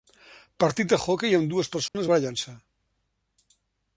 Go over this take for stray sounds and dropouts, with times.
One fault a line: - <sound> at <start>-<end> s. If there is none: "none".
- dropout at 1.9-1.9 s